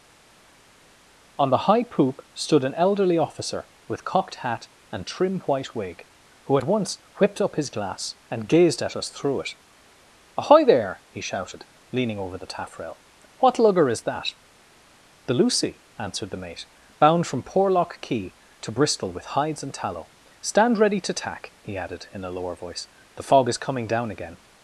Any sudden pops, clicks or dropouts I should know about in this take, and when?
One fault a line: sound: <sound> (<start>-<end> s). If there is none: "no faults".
no faults